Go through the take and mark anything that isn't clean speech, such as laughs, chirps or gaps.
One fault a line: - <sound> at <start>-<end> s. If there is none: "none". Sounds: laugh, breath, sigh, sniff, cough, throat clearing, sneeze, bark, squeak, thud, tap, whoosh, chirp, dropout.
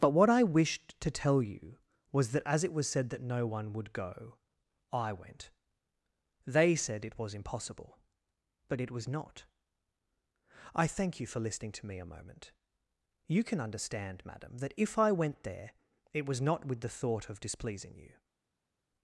none